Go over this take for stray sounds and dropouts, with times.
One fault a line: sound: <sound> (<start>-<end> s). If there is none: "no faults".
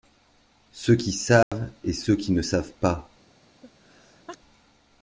sound: dropout (1.4-1.5 s)
sound: sneeze (3.6-4.4 s)